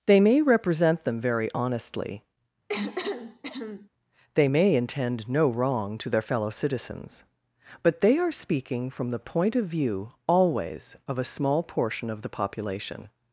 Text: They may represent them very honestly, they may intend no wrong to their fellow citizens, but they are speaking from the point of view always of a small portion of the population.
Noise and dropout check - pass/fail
fail